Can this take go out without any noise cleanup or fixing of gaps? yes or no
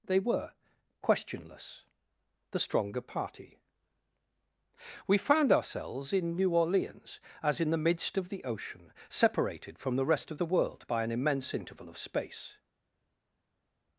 yes